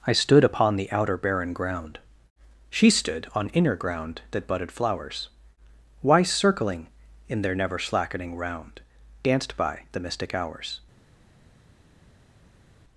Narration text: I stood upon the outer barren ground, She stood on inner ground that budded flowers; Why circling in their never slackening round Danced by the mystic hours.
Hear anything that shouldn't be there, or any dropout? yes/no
no